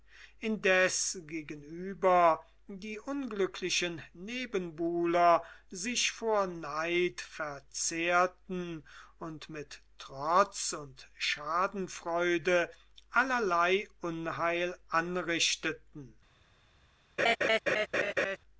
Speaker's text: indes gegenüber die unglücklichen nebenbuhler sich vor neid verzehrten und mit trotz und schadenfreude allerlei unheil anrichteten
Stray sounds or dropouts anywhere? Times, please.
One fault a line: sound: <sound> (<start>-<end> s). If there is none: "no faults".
sound: laugh (17.2-18.4 s)